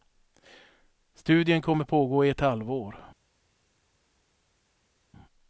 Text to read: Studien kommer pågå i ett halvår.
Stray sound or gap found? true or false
false